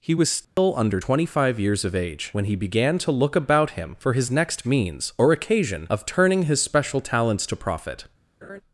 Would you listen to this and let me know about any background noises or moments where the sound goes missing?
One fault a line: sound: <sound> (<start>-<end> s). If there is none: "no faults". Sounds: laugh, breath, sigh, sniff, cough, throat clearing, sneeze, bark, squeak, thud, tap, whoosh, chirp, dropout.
sound: dropout (0.4-0.6 s)
sound: laugh (8.4-8.6 s)